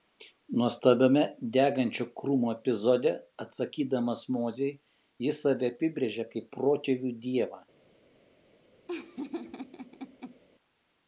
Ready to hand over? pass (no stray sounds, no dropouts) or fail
fail